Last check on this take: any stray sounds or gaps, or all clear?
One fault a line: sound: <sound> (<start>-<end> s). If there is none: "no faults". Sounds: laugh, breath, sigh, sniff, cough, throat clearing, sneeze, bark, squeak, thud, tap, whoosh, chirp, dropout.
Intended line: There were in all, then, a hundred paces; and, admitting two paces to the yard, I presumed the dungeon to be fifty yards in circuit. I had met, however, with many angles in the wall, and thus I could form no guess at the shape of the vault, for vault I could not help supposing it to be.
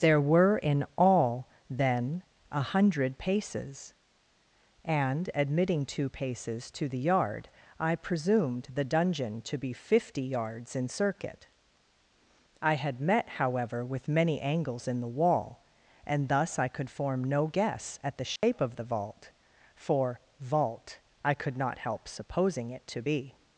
sound: dropout (18.4-18.4 s)